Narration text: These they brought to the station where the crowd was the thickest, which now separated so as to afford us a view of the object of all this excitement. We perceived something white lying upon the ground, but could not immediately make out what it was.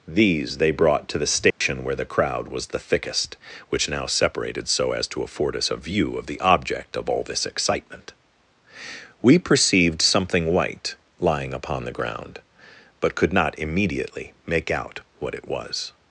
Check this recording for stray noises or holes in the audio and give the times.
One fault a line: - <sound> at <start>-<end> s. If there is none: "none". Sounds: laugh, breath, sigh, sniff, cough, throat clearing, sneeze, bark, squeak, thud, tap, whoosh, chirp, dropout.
- dropout at 1.5-1.6 s